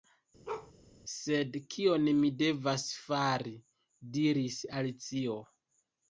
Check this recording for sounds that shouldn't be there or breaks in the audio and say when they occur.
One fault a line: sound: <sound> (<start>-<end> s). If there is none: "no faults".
sound: bark (0.5-0.7 s)